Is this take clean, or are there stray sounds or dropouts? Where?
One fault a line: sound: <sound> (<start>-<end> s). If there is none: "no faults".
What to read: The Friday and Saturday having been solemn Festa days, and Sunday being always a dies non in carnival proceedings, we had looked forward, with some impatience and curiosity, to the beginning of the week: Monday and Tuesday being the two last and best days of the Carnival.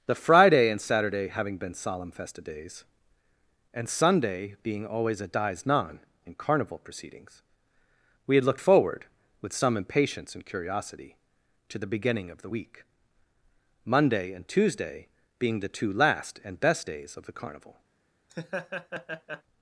sound: laugh (18.3-19.4 s)